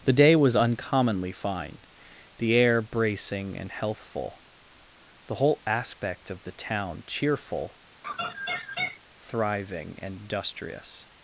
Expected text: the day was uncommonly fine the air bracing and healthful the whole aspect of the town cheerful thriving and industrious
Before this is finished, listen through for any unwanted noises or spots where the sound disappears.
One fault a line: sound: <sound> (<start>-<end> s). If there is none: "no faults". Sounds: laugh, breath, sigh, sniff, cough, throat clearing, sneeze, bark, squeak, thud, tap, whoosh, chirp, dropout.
sound: laugh (8.0-9.0 s)